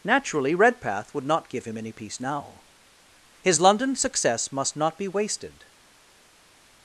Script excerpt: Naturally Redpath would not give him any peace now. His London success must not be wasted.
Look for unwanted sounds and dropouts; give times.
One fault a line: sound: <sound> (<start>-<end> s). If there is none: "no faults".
no faults